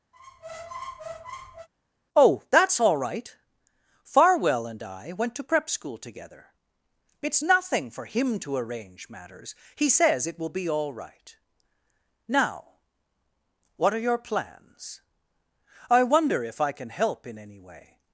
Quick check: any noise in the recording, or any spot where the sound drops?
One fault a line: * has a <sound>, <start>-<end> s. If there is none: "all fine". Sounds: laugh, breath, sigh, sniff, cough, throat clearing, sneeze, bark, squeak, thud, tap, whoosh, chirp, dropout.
* has a squeak, 0.1-1.7 s